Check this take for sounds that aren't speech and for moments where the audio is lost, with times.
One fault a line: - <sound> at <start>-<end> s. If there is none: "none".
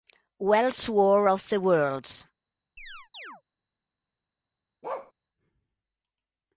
- chirp at 2.8-3.4 s
- bark at 4.8-5.1 s